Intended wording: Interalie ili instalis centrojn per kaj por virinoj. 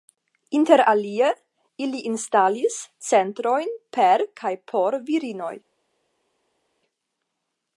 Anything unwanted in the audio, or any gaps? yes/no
no